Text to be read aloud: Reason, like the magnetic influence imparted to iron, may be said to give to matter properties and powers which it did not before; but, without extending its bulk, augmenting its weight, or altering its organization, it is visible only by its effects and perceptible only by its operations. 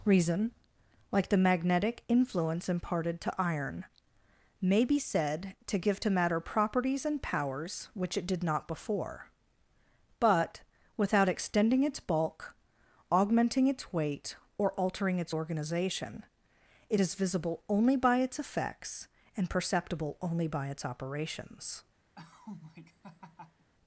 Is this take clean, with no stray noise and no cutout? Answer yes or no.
no